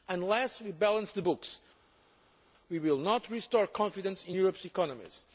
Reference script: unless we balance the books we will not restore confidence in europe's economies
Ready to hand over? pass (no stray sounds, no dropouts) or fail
pass